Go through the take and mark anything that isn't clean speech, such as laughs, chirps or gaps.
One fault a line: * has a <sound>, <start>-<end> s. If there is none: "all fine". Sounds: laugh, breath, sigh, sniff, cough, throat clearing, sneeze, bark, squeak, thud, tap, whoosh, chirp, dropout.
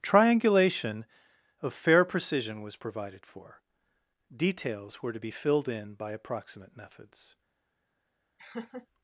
* has a laugh, 8.4-8.9 s